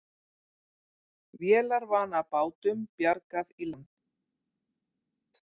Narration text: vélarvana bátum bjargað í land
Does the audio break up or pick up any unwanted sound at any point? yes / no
no